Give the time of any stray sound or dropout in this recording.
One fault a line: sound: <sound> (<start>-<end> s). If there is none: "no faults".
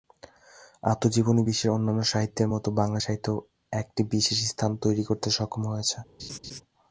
sound: laugh (6.2-6.6 s)